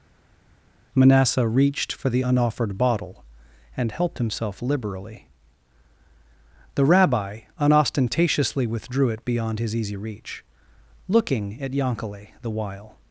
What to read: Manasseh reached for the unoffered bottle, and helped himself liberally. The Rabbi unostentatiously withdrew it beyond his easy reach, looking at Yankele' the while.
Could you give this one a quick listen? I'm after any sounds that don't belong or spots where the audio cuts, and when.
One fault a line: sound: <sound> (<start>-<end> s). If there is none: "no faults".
no faults